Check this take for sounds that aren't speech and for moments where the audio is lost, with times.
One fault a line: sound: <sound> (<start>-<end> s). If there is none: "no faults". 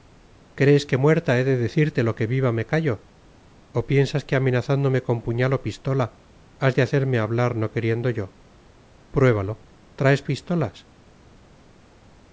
no faults